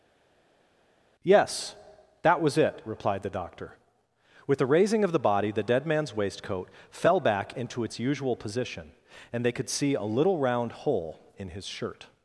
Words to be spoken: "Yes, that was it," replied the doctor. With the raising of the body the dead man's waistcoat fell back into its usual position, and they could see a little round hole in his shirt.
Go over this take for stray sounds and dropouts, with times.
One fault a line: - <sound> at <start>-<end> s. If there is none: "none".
none